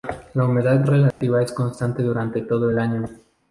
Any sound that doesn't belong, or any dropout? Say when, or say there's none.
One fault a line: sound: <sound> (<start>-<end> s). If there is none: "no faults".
sound: dropout (1.1-1.2 s)